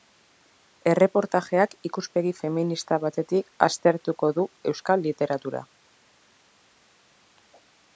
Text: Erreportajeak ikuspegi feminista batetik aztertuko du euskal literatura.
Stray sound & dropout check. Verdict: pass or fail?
pass